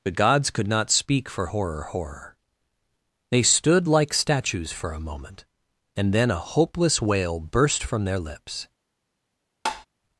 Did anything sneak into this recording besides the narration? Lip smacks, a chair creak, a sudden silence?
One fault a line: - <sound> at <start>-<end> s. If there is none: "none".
- tap at 9.7-9.9 s